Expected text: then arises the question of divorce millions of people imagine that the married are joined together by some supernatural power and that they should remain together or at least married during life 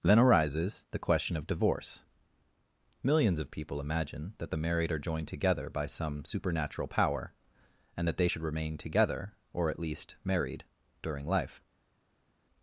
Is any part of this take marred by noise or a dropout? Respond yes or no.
no